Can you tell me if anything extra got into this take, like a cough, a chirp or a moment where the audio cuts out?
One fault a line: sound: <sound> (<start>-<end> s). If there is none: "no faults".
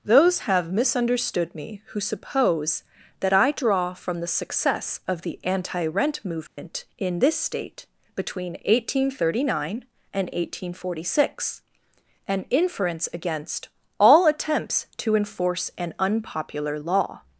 sound: dropout (6.5-6.6 s)